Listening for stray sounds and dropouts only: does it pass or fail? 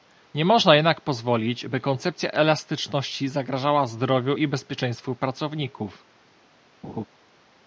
fail